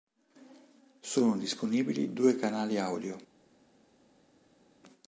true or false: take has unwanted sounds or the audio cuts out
false